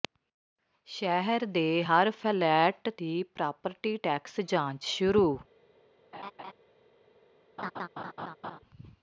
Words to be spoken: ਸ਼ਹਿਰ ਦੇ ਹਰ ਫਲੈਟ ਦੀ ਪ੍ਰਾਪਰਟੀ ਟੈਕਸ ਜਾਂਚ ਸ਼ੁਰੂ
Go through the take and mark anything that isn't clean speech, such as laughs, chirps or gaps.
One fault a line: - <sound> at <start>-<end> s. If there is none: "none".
- laugh at 6.1-6.5 s
- laugh at 7.6-8.6 s